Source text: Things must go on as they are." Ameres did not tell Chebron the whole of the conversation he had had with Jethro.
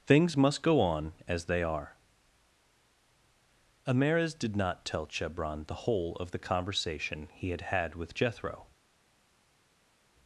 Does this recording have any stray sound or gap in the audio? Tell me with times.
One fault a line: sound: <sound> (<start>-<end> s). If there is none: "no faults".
no faults